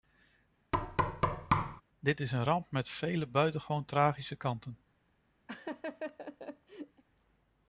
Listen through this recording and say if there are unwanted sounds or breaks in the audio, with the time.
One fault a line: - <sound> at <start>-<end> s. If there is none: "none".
- thud at 0.7-1.8 s
- laugh at 5.5-7.0 s